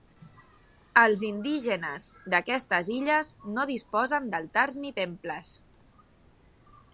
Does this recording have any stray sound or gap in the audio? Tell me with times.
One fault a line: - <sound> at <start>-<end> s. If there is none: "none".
none